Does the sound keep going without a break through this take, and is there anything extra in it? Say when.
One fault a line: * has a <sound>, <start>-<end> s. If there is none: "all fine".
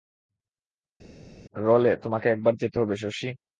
all fine